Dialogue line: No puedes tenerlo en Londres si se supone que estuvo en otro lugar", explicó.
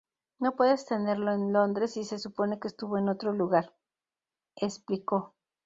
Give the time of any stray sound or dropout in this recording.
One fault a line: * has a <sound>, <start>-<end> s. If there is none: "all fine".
all fine